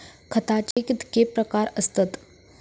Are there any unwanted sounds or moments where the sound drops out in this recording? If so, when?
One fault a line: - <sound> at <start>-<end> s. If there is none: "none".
- dropout at 0.7-0.8 s